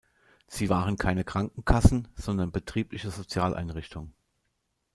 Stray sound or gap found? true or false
false